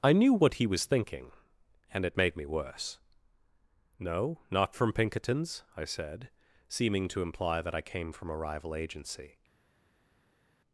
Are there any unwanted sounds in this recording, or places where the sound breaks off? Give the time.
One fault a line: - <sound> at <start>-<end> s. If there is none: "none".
none